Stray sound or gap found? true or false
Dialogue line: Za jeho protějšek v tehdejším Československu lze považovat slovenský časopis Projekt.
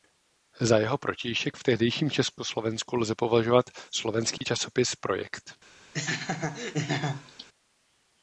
true